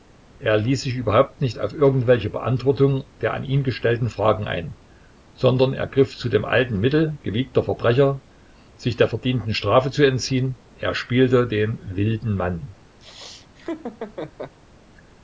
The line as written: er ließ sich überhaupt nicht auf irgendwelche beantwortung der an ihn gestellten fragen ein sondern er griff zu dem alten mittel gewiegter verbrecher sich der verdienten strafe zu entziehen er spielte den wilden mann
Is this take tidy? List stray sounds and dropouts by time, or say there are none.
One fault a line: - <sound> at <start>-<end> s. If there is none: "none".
- laugh at 13.0-14.6 s